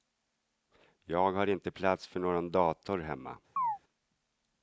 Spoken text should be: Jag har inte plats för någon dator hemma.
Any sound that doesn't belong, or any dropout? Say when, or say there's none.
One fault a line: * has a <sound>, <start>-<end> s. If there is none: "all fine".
* has a chirp, 3.6-3.8 s